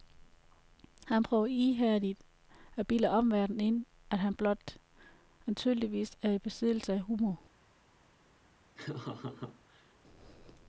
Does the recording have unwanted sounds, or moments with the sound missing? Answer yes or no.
yes